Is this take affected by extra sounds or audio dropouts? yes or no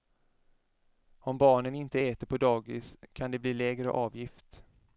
no